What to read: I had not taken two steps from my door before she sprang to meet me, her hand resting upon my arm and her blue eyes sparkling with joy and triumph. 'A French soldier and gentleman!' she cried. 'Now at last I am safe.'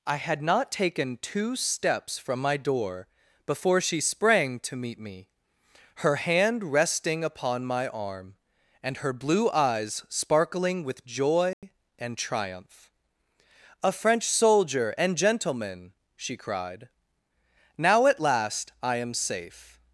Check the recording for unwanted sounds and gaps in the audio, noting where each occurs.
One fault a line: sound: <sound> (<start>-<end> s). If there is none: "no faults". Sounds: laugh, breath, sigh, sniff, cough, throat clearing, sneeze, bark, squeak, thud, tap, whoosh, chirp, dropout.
sound: dropout (11.5-11.6 s)